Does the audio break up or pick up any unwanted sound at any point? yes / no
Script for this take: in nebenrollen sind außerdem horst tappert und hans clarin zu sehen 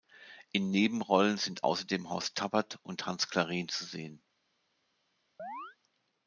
yes